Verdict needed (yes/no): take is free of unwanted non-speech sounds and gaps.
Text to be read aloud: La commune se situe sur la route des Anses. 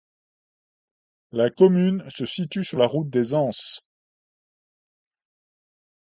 yes